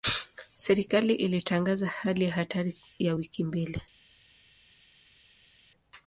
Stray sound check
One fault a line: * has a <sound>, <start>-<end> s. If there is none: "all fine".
all fine